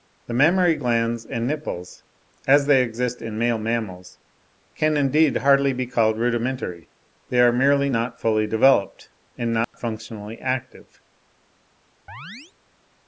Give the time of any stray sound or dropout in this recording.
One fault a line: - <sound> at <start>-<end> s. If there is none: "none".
- dropout at 9.6-9.7 s
- chirp at 12.1-12.5 s